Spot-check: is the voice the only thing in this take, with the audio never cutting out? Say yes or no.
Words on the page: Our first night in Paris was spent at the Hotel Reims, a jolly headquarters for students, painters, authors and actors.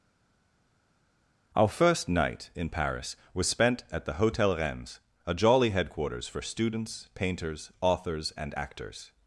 yes